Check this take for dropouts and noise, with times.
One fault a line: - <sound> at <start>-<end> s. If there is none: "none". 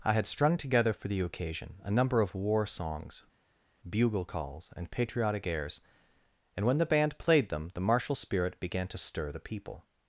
none